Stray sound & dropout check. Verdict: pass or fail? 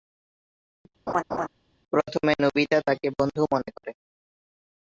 fail